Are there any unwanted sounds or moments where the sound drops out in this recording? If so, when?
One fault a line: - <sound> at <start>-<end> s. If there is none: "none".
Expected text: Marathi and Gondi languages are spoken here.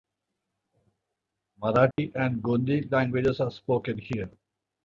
- dropout at 1.9-2.0 s